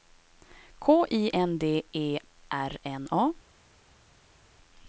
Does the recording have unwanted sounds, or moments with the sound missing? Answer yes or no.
no